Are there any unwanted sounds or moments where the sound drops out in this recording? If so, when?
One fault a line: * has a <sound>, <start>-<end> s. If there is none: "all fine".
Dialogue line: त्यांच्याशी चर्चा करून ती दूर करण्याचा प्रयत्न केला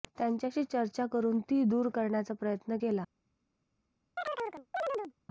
* has a chirp, 4.2-5.1 s